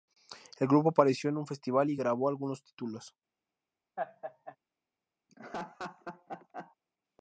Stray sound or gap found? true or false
true